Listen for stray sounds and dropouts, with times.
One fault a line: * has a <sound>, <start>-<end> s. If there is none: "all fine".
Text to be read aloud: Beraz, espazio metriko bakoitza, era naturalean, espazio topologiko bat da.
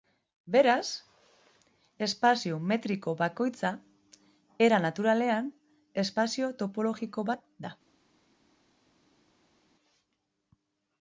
all fine